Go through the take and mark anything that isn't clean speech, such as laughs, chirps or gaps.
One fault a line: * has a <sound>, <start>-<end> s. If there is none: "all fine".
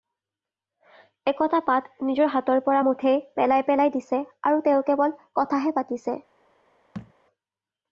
* has a thud, 6.9-7.1 s